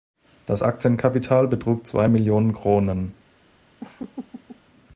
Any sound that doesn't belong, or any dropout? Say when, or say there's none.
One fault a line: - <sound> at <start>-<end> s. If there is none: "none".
- laugh at 3.8-4.6 s